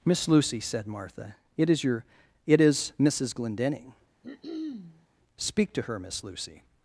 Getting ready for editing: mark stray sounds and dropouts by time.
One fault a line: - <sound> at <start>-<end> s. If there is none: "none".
- throat clearing at 4.2-5.1 s